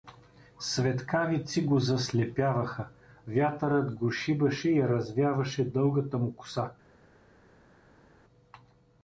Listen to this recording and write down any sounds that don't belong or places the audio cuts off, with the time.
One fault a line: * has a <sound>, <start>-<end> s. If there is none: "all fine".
all fine